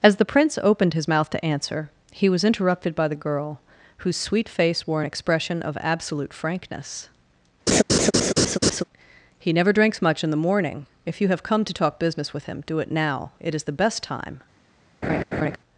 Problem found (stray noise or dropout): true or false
true